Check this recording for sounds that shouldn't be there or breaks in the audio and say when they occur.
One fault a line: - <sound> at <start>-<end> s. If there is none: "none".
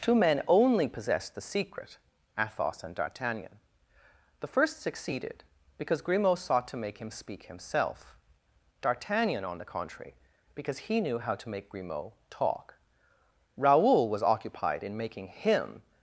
none